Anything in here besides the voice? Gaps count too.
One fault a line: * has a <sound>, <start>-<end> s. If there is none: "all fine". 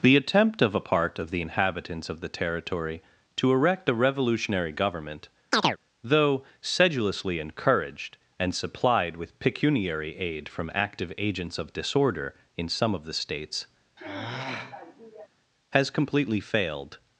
* has a chirp, 5.5-5.8 s
* has a sigh, 14.0-15.3 s